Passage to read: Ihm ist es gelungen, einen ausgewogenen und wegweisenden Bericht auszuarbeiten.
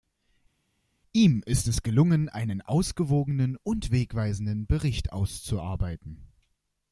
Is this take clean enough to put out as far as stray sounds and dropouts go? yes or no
yes